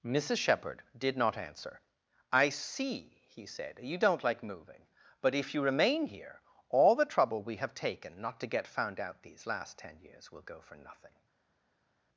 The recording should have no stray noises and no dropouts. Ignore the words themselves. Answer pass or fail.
pass